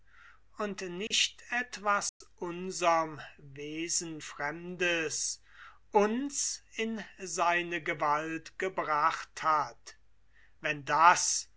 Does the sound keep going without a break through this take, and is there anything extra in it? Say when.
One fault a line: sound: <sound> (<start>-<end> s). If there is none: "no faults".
sound: dropout (1.1-1.1 s)
sound: dropout (2.1-2.2 s)